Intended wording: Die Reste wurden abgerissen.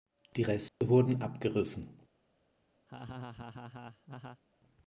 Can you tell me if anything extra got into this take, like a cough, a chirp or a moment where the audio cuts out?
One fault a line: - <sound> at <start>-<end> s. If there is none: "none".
- dropout at 0.7-0.8 s
- laugh at 2.9-4.4 s